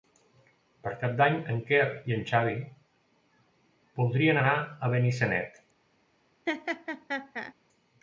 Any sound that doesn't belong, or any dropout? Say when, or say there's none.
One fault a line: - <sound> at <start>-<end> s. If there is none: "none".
- laugh at 6.5-7.5 s